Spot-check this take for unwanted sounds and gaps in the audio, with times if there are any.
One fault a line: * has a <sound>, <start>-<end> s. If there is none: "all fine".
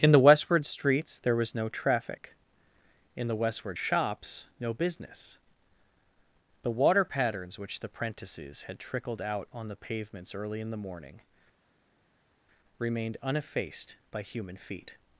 all fine